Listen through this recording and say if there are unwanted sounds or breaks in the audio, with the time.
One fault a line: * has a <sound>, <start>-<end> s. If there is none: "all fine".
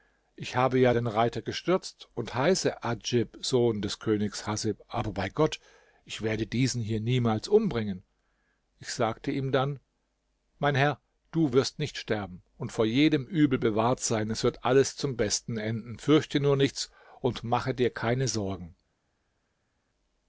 all fine